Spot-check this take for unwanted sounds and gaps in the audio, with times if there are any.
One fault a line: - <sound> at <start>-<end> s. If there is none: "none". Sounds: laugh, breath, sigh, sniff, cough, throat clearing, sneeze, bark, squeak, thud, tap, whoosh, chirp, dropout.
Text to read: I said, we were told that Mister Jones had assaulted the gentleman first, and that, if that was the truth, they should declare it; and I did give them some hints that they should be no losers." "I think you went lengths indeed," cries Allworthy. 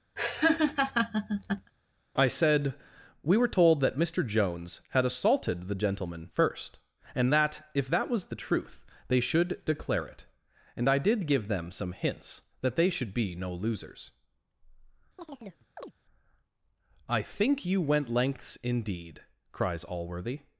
- laugh at 0.2-1.7 s
- chirp at 15.2-15.9 s